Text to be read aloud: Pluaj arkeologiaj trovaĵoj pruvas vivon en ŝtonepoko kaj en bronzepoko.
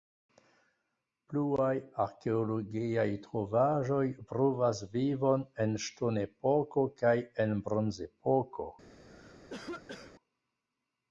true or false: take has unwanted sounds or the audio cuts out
true